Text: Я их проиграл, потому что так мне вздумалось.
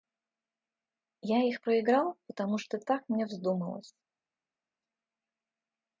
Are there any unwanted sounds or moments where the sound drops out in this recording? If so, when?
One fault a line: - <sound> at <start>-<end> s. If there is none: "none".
none